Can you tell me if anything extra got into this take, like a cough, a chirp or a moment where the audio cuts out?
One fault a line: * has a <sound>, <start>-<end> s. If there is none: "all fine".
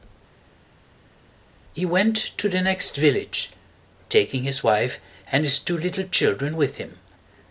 all fine